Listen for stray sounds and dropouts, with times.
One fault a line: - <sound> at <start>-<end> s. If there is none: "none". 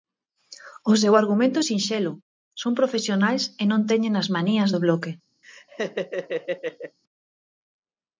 - laugh at 5.4-7.0 s